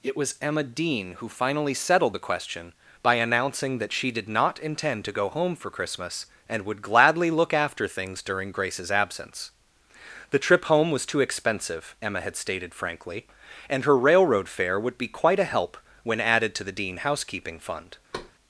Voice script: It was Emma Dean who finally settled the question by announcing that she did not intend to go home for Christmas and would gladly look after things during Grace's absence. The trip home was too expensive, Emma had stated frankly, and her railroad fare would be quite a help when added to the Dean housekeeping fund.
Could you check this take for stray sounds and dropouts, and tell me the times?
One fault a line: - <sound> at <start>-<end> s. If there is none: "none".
- thud at 18.1-18.3 s